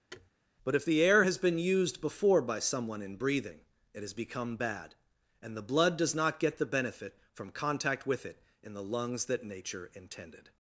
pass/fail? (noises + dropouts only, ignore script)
fail